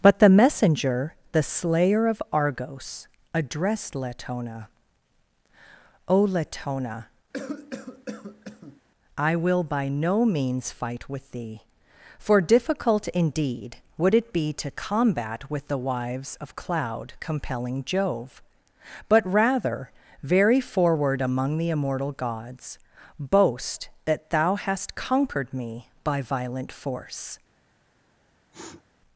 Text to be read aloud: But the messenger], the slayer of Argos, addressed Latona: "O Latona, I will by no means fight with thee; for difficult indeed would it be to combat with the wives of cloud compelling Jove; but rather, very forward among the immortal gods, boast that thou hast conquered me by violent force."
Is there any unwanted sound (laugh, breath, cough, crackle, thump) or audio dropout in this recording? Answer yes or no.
yes